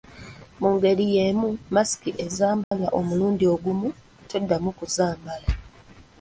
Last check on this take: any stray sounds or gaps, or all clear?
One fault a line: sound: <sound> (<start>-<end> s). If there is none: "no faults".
sound: dropout (2.6-2.7 s)